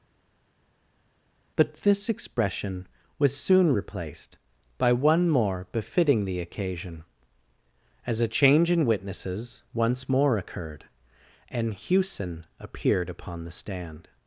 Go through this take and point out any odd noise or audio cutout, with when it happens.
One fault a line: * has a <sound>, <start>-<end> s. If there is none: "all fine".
all fine